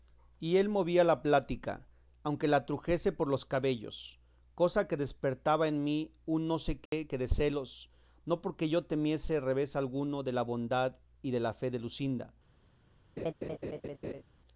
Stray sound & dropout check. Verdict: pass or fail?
fail